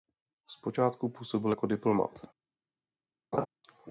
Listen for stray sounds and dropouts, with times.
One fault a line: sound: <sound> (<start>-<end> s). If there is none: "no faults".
sound: laugh (3.3-3.5 s)